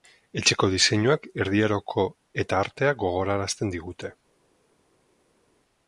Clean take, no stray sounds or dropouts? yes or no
yes